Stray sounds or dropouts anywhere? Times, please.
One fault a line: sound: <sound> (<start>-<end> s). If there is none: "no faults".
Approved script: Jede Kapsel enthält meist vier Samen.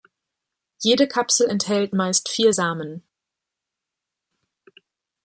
no faults